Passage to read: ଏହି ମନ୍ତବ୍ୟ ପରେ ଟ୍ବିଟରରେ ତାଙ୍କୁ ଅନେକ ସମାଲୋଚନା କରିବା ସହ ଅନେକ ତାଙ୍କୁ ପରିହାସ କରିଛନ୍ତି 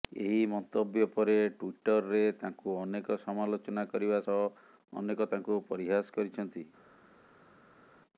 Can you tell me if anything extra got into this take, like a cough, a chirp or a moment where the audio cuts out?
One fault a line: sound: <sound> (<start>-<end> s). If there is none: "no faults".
no faults